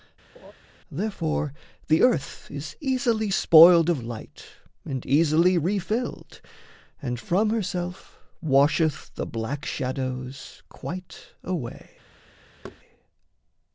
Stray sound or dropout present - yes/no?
yes